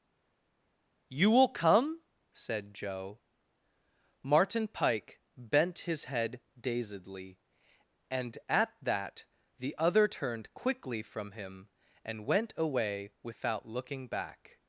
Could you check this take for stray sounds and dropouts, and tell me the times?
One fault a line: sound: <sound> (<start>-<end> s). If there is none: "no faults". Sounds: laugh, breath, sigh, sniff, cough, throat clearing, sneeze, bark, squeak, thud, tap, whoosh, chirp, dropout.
no faults